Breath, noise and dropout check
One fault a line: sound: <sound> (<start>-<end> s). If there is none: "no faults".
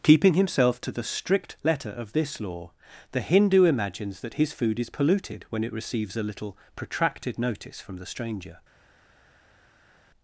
no faults